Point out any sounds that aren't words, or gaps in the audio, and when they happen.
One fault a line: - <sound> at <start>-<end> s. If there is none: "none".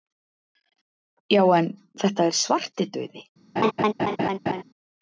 - laugh at 3.6-4.6 s